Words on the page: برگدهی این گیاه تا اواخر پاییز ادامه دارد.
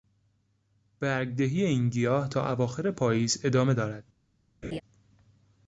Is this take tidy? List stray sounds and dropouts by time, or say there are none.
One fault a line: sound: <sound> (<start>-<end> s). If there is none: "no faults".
sound: laugh (4.6-4.8 s)